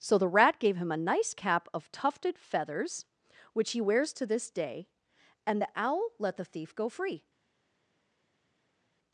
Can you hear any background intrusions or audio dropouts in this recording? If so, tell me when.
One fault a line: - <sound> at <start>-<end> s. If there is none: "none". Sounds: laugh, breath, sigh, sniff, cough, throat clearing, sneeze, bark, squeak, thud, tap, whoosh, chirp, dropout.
none